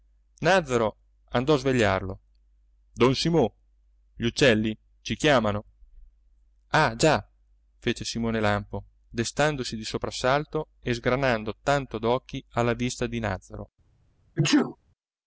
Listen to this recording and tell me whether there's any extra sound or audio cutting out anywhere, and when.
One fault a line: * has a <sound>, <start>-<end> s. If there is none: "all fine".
* has a sneeze, 14.4-14.8 s